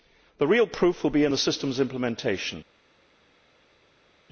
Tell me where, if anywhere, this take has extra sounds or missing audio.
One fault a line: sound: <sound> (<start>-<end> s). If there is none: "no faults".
no faults